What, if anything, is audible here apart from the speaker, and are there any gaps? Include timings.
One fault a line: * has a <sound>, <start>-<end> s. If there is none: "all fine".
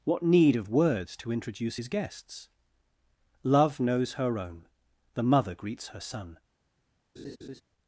* has a laugh, 7.2-7.6 s